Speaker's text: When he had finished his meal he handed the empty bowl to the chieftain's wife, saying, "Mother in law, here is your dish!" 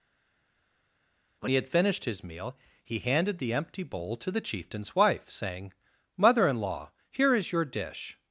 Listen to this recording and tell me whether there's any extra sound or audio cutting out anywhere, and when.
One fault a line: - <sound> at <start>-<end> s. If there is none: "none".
none